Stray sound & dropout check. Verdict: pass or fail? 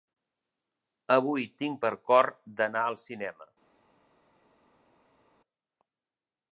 pass